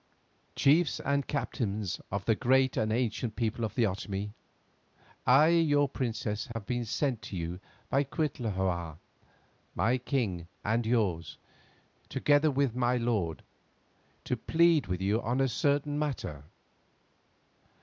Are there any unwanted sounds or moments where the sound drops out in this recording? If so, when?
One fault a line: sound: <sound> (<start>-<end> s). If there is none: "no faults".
sound: dropout (6.5-6.6 s)